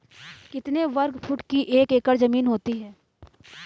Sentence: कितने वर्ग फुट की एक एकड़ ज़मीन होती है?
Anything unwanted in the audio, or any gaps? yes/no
no